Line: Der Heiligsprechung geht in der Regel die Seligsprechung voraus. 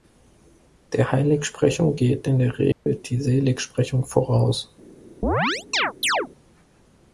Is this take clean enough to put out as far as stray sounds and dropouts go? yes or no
no